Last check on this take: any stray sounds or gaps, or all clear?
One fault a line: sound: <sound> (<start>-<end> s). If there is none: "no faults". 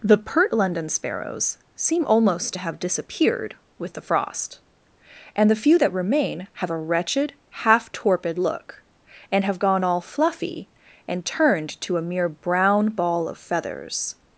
no faults